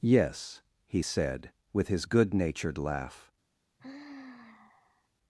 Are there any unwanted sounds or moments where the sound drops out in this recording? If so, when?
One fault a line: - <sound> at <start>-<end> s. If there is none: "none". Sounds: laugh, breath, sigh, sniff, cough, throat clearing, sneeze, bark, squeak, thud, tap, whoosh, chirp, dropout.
- sigh at 3.8-5.1 s